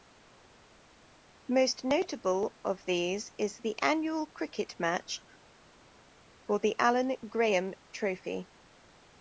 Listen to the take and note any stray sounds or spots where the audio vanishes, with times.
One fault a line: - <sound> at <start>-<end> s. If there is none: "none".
none